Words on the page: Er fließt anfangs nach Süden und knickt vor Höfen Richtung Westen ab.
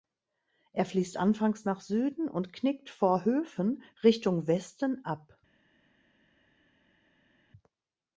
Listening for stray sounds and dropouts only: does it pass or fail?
pass